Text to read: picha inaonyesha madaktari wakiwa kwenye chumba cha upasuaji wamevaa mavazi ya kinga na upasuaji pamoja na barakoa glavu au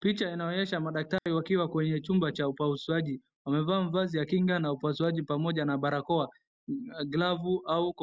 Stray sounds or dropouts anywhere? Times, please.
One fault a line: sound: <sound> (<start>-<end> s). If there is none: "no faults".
sound: dropout (1.2-1.3 s)